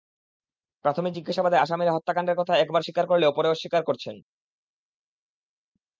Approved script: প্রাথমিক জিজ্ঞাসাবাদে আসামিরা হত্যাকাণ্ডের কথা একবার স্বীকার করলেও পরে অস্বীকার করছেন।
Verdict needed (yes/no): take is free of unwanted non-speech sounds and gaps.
yes